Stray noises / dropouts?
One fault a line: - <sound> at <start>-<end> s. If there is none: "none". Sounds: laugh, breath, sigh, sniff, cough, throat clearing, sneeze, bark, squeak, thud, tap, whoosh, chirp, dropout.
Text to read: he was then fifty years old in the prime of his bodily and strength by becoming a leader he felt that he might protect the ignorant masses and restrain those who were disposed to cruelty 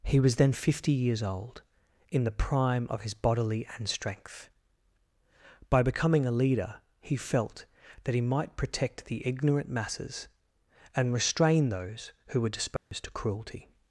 - dropout at 12.8-12.9 s